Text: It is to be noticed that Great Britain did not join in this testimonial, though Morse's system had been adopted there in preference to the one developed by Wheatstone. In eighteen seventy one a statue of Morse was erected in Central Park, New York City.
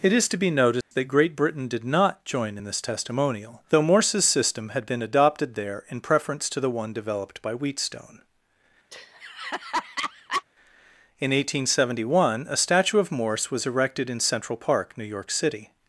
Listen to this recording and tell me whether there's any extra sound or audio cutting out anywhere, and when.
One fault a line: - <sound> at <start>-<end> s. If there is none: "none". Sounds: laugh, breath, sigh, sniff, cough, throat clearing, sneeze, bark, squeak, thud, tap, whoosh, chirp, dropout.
- dropout at 0.8-0.9 s
- laugh at 8.9-10.4 s